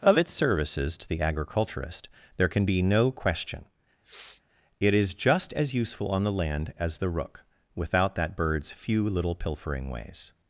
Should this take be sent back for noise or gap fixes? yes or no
yes